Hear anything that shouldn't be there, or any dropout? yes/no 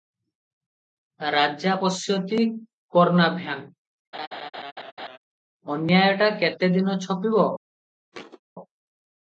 yes